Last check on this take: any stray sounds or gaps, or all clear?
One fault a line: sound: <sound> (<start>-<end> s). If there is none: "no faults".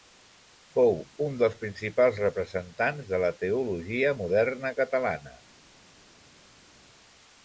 no faults